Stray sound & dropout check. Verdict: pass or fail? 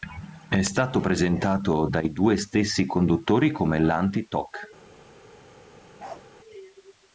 fail